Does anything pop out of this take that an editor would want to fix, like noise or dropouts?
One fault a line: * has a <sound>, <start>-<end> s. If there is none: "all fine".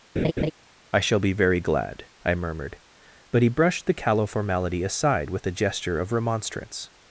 * has a laugh, 0.2-0.5 s